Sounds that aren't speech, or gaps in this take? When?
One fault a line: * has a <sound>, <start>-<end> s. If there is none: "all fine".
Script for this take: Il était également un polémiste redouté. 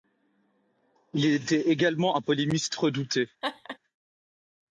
* has a laugh, 3.4-3.8 s